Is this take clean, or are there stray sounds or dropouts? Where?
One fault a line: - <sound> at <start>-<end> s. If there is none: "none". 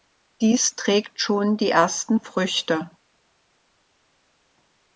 none